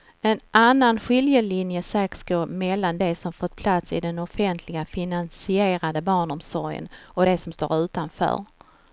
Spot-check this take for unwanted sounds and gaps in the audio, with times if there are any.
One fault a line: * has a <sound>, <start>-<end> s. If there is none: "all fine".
all fine